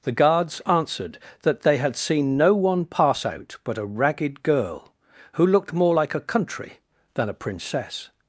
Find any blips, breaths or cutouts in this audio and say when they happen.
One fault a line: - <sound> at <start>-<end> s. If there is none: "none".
none